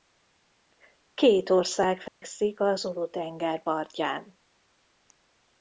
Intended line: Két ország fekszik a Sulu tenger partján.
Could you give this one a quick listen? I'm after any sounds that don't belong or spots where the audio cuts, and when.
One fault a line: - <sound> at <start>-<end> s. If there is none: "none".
- dropout at 2.1-2.2 s